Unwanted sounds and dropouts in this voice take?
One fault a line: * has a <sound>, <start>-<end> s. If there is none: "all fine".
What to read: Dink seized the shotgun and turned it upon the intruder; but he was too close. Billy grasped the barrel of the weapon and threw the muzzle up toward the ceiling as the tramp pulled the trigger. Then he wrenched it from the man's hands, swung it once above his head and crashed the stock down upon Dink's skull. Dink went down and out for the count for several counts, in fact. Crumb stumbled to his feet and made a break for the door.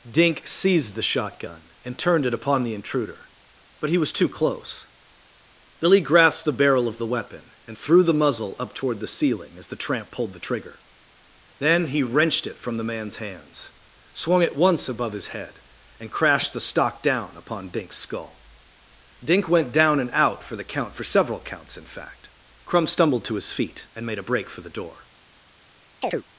* has a chirp, 26.0-26.2 s